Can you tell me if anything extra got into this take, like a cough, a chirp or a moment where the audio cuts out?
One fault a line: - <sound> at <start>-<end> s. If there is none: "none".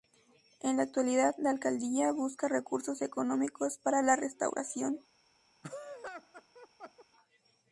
- laugh at 5.6-7.1 s